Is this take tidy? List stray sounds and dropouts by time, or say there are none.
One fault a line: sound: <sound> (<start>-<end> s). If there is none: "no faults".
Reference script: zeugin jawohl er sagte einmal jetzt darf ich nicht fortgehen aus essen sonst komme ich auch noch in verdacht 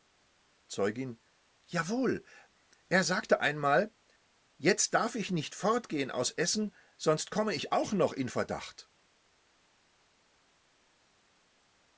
no faults